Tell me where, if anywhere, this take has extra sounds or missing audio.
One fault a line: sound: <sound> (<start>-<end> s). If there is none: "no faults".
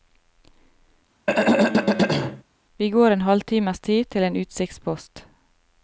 sound: throat clearing (1.3-2.4 s)